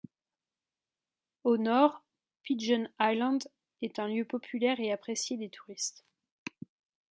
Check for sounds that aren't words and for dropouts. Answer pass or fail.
pass